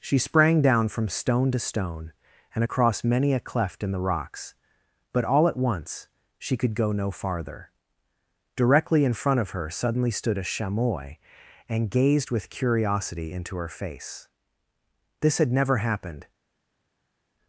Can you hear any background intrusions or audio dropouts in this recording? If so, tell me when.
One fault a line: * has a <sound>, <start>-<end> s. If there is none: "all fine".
all fine